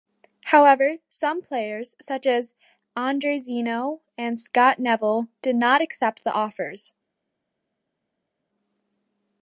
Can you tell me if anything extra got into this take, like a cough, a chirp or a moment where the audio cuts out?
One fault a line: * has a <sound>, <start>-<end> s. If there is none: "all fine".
all fine